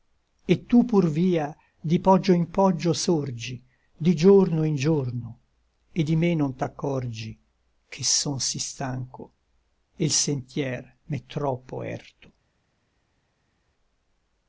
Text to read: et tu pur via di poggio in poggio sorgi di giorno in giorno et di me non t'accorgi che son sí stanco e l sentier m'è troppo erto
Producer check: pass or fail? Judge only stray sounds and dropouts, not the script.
pass